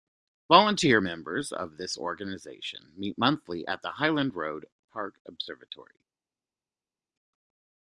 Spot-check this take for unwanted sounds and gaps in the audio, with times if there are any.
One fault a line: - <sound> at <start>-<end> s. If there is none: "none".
none